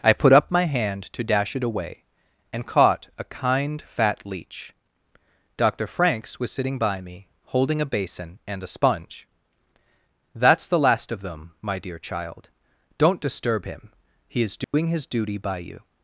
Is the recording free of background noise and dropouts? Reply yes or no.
no